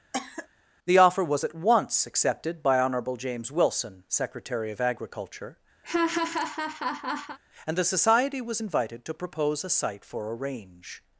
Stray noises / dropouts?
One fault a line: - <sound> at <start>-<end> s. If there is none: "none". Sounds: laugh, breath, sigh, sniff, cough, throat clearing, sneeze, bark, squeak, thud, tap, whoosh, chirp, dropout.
- cough at 0.1-0.5 s
- laugh at 5.8-7.4 s